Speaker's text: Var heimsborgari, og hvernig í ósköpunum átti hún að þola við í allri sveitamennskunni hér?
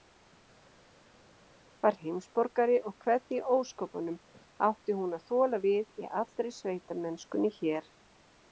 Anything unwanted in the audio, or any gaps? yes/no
no